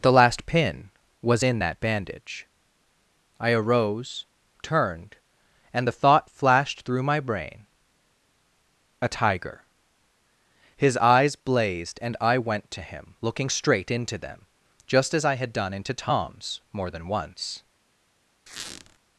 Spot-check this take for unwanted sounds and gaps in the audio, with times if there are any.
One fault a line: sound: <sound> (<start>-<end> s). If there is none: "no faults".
sound: squeak (18.5-19.0 s)